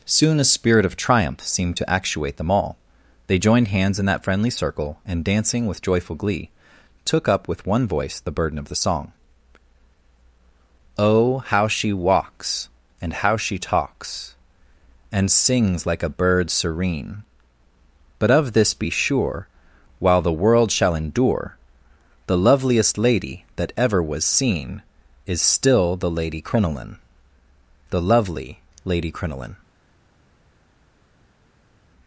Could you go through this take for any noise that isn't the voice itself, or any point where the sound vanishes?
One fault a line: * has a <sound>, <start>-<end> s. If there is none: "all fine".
all fine